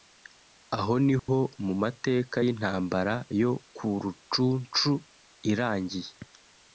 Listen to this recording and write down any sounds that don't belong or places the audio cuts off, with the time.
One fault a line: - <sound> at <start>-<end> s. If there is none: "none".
- dropout at 1.2-1.3 s